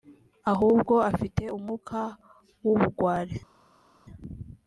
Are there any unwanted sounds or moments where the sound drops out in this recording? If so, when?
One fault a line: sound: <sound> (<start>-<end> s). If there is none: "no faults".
no faults